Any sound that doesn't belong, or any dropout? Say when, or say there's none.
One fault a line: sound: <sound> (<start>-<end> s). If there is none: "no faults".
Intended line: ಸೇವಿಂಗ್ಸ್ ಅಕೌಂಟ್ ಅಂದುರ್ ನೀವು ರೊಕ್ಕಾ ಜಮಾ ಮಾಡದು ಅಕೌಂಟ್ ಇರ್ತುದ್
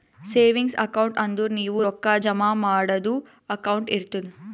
no faults